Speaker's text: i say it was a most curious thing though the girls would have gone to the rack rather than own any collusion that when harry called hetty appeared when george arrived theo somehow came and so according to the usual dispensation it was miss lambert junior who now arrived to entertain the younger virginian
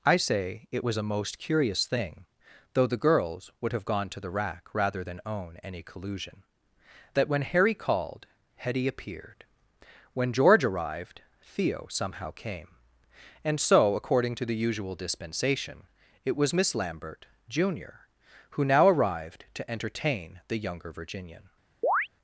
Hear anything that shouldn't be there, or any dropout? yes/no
yes